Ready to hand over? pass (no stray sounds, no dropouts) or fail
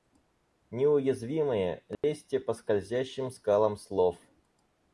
fail